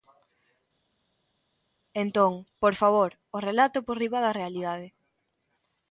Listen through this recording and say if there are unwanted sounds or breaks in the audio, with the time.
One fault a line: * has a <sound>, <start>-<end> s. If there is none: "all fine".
all fine